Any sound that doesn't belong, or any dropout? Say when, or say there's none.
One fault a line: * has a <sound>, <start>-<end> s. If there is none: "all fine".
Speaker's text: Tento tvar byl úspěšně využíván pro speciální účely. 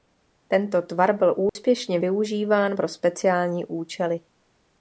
* has a dropout, 1.5-1.6 s